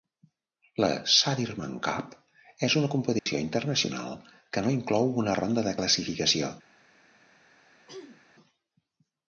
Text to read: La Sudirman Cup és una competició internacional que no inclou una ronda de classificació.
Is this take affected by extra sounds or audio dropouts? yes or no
yes